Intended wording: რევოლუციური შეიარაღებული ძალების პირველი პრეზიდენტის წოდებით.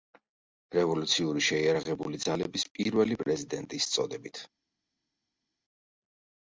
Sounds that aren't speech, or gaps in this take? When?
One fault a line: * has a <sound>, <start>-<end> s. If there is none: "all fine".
all fine